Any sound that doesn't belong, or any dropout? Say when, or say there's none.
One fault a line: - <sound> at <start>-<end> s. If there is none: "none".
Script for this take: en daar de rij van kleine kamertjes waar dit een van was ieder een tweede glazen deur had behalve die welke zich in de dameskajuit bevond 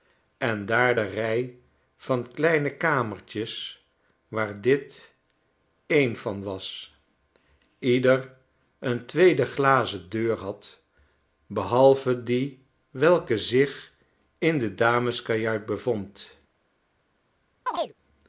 - chirp at 17.7-17.9 s